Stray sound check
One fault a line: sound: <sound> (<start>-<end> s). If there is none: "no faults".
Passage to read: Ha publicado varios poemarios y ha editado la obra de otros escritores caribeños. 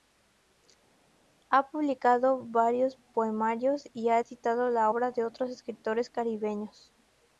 no faults